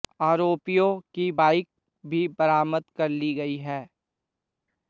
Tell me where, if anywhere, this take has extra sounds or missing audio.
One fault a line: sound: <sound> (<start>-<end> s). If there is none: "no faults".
no faults